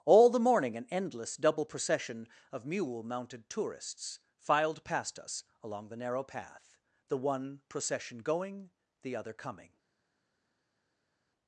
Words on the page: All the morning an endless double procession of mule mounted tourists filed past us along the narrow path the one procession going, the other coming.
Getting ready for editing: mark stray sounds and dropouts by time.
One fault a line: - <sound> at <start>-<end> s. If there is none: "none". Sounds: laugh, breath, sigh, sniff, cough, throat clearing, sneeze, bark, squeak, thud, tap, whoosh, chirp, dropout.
none